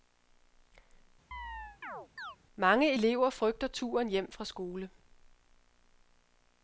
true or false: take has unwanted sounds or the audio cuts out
true